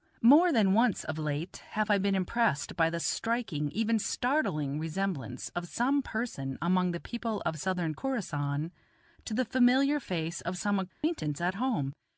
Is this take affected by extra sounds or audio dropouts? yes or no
yes